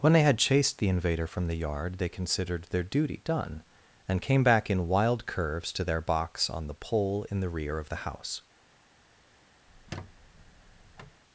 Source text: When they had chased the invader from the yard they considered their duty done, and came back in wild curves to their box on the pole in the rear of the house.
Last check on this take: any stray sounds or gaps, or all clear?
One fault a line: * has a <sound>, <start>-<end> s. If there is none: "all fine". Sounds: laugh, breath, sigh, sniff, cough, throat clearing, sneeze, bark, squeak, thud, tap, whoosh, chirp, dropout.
* has a squeak, 9.7-11.2 s